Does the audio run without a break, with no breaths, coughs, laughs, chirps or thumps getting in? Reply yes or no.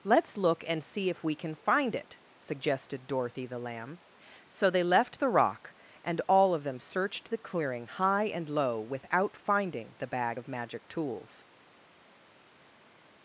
yes